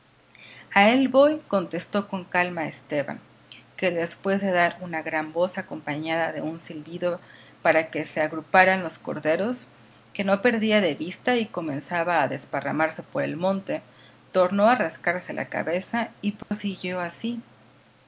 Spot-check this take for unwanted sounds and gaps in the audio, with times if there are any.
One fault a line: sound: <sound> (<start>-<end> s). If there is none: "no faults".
sound: dropout (16.4-16.5 s)